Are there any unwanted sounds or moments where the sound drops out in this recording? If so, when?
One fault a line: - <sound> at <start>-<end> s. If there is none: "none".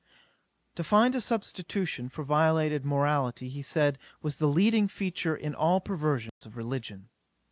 - dropout at 6.3-6.4 s